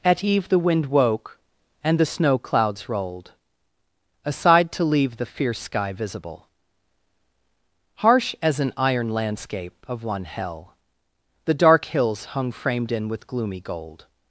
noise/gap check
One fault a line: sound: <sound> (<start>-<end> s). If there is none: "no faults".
no faults